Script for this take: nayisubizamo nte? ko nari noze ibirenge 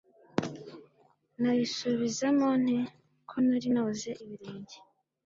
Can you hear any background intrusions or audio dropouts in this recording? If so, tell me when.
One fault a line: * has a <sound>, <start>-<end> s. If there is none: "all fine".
all fine